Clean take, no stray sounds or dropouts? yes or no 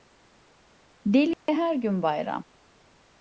no